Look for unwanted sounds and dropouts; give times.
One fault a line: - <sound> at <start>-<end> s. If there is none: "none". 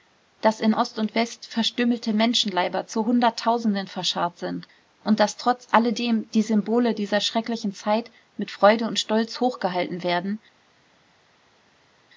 none